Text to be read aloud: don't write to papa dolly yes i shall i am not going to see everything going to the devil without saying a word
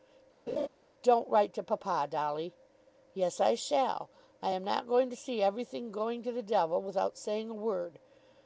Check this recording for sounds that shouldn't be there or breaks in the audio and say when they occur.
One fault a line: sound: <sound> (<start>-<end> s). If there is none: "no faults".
sound: laugh (0.5-0.7 s)